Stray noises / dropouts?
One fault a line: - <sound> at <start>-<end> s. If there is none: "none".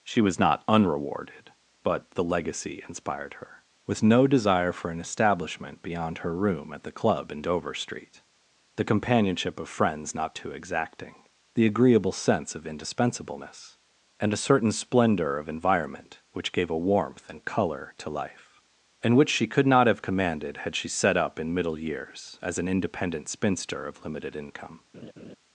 - laugh at 24.9-25.4 s